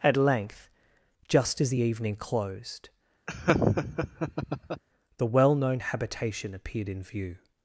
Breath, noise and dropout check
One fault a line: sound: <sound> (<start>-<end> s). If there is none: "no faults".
sound: laugh (3.3-4.8 s)